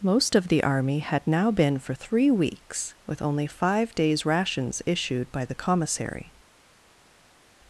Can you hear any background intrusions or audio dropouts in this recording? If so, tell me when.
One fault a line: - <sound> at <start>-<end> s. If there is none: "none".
none